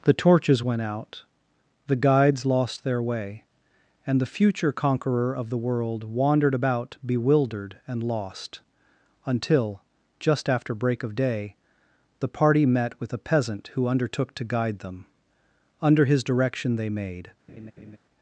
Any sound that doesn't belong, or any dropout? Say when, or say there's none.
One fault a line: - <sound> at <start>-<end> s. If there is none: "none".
- laugh at 17.5-18.0 s